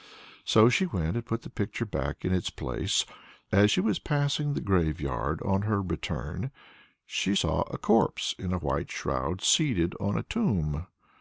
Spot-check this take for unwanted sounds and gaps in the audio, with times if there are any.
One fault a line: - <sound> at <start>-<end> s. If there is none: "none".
none